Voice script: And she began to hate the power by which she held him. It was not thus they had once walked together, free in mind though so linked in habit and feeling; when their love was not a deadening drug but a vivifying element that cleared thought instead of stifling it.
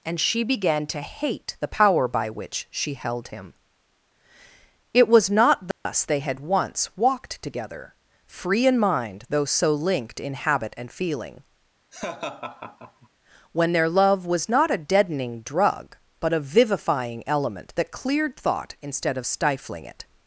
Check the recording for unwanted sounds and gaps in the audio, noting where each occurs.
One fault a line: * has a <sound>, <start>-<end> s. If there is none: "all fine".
* has a dropout, 5.7-5.9 s
* has a laugh, 11.9-13.1 s